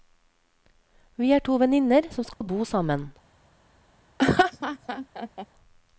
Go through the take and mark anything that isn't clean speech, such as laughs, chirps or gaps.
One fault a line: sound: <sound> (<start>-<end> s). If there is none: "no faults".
sound: dropout (2.3-2.4 s)
sound: laugh (4.2-5.5 s)